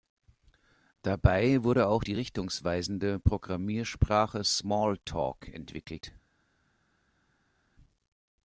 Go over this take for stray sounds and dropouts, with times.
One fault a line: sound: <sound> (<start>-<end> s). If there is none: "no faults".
no faults